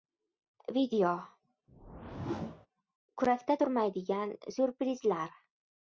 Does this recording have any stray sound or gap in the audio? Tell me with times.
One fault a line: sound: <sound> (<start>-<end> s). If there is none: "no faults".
sound: whoosh (1.7-2.7 s)